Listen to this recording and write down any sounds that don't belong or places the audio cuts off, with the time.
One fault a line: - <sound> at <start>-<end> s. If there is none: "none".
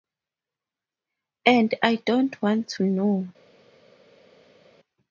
none